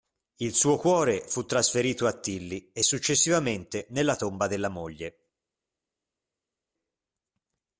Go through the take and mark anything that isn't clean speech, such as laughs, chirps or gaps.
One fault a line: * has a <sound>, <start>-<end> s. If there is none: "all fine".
all fine